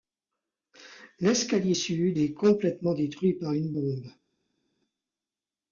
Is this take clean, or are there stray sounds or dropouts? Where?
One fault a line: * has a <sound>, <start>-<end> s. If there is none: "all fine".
all fine